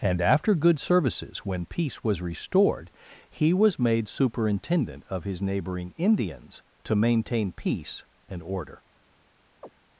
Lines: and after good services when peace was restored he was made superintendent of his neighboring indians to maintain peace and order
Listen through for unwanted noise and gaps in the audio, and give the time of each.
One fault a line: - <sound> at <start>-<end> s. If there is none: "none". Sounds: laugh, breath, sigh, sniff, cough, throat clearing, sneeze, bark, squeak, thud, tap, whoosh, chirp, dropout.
- chirp at 9.6-9.7 s